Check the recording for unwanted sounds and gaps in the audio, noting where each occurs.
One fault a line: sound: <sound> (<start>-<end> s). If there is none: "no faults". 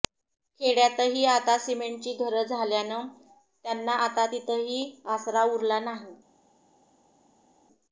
no faults